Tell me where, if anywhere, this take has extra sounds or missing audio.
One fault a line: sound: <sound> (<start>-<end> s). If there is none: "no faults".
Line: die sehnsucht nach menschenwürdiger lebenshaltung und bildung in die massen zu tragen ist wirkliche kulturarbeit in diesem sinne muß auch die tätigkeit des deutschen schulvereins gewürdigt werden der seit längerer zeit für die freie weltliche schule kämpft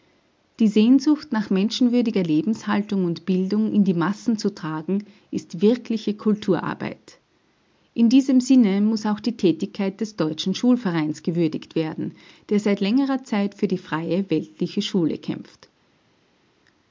no faults